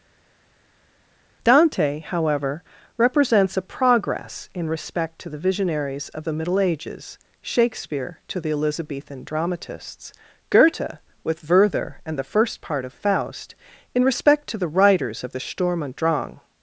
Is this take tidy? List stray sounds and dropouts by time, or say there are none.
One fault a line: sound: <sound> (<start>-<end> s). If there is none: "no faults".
no faults